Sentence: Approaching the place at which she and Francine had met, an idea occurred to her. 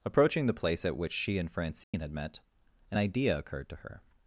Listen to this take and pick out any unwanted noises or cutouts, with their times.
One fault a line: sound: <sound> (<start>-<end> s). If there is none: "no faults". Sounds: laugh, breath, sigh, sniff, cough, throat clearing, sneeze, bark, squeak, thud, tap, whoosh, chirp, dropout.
sound: dropout (1.8-1.9 s)